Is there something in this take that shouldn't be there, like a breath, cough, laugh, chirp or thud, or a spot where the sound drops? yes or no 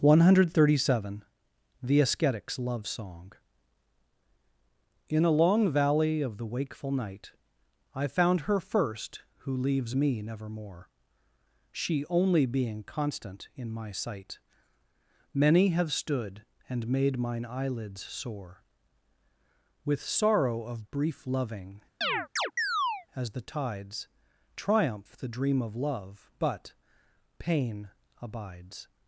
yes